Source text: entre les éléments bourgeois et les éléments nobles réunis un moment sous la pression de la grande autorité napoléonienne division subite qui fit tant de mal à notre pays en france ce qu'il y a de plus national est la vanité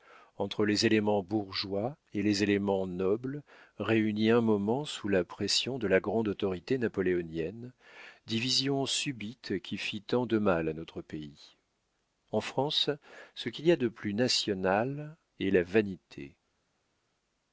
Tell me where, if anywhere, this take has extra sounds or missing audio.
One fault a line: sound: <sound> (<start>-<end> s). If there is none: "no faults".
no faults